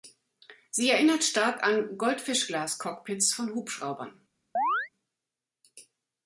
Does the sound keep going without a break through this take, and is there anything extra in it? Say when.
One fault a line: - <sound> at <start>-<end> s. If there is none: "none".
- chirp at 4.6-4.9 s